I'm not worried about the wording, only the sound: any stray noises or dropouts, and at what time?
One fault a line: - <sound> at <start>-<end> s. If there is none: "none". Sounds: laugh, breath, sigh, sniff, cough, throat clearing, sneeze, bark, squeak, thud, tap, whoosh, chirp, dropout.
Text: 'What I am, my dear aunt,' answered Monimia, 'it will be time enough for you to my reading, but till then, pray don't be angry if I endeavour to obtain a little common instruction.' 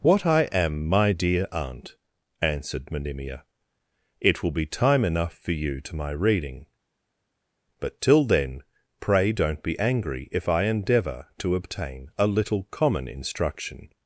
none